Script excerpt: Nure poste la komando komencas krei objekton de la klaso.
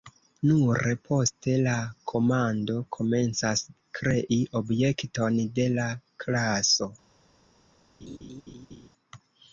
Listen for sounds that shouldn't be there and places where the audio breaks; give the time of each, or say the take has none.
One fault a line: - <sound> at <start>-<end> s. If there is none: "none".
- laugh at 8.0-8.9 s